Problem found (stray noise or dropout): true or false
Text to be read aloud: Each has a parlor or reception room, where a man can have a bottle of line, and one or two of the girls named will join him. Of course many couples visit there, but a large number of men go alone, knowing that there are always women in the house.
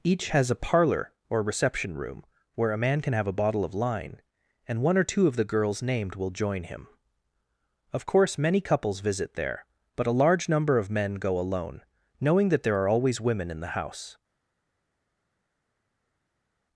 false